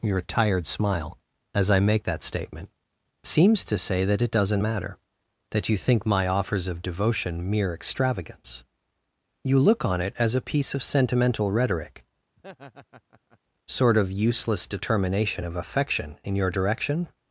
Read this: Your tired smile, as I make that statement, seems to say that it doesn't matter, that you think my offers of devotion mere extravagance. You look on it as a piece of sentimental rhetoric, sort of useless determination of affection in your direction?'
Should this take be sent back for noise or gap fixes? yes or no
yes